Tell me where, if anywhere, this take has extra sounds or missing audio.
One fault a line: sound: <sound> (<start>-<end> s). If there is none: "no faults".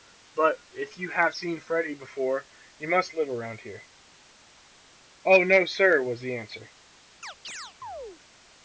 sound: chirp (7.2-8.2 s)